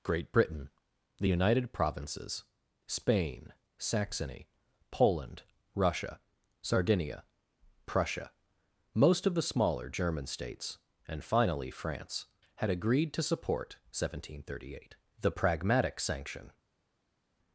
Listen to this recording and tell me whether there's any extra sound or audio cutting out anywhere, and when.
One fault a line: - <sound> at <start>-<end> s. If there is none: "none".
none